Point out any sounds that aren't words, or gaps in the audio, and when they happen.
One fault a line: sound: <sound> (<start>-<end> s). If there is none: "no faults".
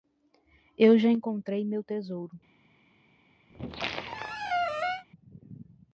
sound: squeak (3.5-5.0 s)